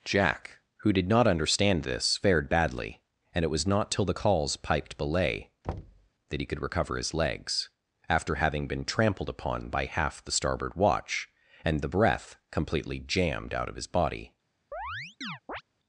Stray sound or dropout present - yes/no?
yes